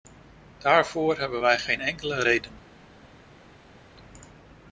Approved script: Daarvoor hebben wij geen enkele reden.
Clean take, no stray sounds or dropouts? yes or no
yes